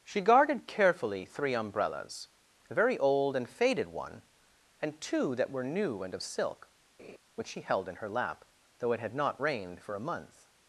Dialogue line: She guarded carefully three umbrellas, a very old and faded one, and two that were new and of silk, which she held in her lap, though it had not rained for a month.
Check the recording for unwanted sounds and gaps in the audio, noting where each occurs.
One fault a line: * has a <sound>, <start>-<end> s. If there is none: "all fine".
* has a laugh, 7.0-7.2 s